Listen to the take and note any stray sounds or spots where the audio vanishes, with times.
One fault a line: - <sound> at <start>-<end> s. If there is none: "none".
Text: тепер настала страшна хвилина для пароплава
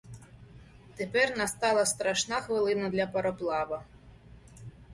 none